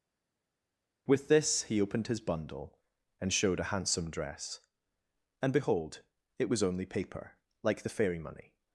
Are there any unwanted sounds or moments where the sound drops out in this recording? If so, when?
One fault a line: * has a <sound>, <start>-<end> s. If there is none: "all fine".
all fine